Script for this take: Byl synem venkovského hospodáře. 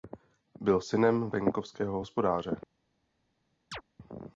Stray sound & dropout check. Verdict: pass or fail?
fail